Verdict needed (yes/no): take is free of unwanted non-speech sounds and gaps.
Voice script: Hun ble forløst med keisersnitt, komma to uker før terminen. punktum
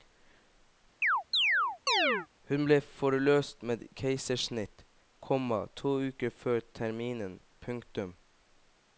no